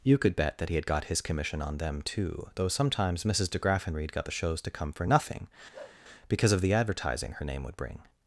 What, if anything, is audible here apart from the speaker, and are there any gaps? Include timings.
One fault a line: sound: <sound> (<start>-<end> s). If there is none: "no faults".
sound: bark (5.7-6.0 s)